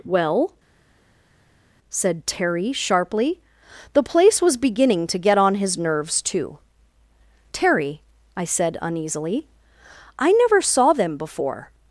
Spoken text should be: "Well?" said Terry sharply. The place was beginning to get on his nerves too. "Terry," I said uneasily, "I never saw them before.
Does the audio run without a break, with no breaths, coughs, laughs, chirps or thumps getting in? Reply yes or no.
yes